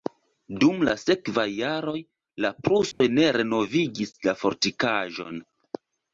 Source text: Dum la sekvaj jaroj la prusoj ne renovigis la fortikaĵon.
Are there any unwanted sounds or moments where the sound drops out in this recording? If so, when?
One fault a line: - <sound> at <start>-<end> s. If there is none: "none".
- dropout at 2.9-3.0 s